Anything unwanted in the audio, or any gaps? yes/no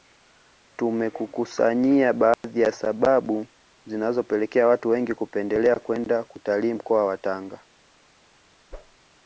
yes